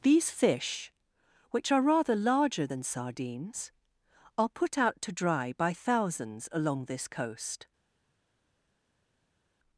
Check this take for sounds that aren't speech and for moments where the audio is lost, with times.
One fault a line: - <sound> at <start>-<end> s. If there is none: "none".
none